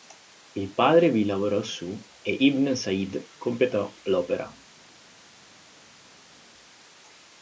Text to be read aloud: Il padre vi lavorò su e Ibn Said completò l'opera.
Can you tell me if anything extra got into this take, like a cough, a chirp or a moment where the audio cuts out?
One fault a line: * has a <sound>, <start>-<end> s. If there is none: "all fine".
all fine